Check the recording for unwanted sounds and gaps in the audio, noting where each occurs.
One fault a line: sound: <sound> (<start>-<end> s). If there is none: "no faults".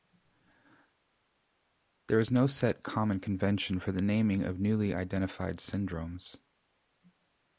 no faults